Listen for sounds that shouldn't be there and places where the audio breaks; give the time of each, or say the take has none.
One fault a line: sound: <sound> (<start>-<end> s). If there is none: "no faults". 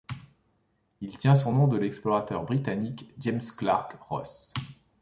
no faults